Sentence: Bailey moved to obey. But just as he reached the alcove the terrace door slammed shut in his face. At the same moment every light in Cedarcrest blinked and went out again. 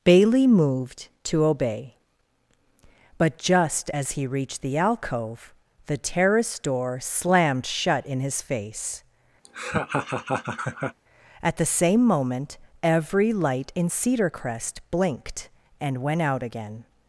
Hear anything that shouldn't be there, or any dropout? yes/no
yes